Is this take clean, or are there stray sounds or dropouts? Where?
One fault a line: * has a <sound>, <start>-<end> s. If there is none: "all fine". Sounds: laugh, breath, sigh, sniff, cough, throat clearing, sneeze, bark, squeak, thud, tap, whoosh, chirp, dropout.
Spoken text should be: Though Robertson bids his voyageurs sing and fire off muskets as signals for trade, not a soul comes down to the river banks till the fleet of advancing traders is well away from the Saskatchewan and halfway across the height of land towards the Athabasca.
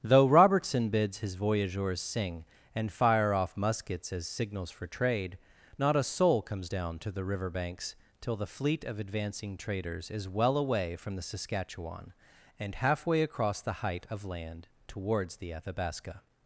all fine